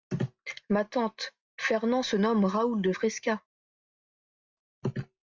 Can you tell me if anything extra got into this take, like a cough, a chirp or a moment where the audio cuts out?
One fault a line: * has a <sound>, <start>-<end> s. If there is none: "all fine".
all fine